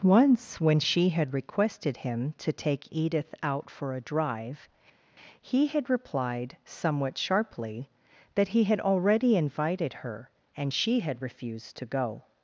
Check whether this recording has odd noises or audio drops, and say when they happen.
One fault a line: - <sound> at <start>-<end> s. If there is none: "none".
none